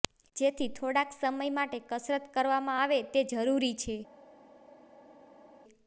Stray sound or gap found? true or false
false